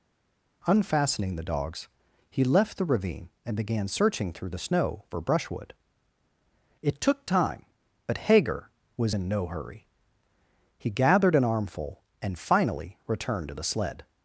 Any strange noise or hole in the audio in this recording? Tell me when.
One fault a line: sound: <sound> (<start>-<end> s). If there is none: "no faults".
no faults